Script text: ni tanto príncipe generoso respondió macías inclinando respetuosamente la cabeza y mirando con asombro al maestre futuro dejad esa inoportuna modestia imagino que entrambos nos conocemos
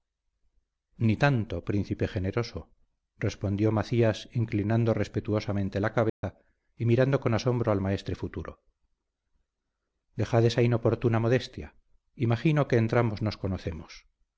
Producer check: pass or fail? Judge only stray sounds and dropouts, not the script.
fail